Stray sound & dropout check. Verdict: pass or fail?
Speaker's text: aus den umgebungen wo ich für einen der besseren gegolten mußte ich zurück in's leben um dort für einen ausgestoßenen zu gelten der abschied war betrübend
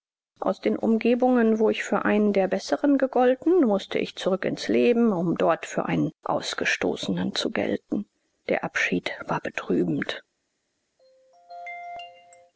fail